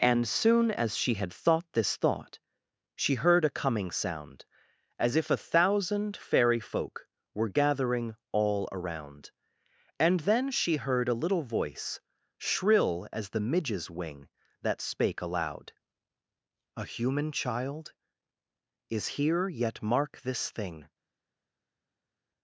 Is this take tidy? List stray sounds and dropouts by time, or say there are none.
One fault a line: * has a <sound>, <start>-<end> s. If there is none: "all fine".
all fine